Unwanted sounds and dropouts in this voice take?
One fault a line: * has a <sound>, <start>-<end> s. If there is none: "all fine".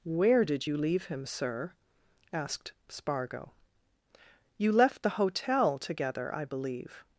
all fine